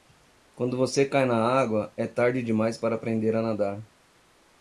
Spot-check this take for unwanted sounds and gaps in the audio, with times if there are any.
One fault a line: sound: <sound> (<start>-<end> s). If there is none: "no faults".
no faults